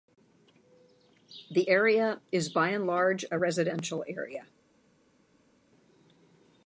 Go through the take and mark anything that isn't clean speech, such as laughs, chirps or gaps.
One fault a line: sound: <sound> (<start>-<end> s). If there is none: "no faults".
no faults